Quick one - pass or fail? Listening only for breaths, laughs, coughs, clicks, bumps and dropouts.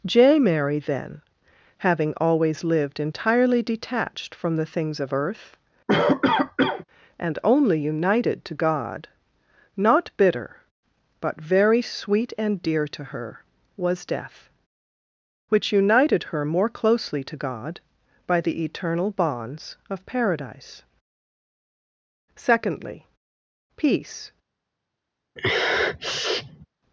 fail